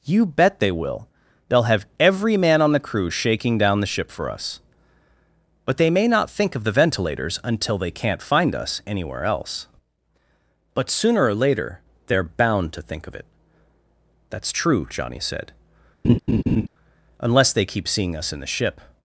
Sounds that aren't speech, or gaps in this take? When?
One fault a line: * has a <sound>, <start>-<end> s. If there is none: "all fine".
* has a laugh, 16.0-16.7 s